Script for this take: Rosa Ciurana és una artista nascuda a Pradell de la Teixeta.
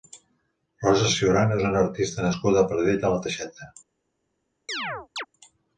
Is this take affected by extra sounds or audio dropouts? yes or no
yes